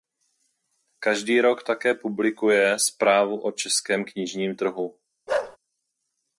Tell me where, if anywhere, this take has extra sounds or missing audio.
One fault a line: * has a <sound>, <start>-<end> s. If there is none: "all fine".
* has a bark, 5.3-5.6 s